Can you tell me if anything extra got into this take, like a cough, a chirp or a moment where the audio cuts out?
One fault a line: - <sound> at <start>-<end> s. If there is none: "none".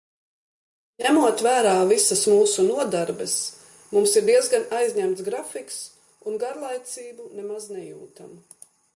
none